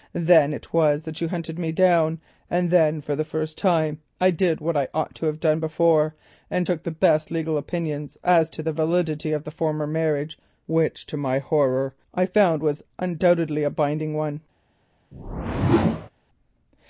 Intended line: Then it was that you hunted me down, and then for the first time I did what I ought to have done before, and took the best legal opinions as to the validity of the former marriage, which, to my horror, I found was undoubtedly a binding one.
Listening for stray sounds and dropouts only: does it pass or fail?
fail